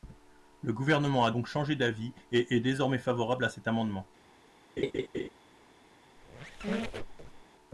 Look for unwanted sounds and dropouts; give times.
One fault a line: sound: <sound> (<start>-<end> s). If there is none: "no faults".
sound: laugh (4.8-5.3 s)
sound: squeak (6.2-7.5 s)